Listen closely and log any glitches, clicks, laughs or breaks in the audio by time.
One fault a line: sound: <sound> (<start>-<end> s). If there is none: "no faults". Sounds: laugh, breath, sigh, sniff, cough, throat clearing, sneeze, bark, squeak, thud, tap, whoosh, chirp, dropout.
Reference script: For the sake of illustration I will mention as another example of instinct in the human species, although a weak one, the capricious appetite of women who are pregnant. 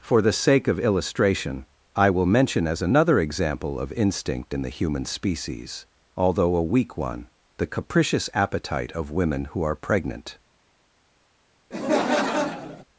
sound: laugh (11.7-12.8 s)